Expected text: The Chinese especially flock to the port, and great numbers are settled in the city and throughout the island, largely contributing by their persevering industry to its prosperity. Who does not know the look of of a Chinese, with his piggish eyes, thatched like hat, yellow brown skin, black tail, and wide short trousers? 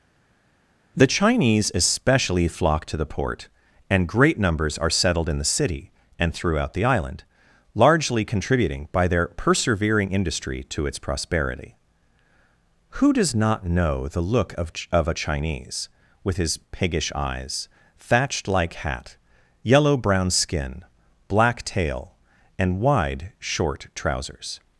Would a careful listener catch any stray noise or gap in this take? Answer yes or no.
no